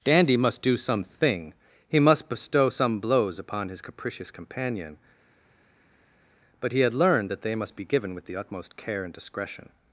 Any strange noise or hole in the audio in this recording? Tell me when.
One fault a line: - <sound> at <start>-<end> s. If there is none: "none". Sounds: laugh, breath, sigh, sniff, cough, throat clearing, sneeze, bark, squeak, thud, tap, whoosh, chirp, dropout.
none